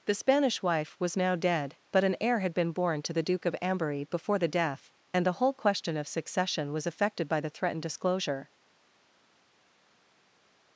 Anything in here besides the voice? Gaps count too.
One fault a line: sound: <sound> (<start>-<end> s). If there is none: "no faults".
no faults